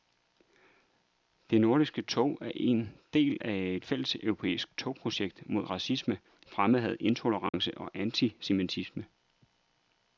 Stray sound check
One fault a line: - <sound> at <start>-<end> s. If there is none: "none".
- dropout at 7.5-7.5 s